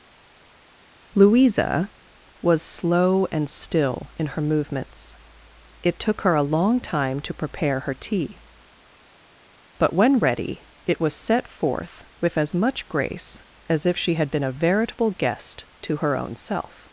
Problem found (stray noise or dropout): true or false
false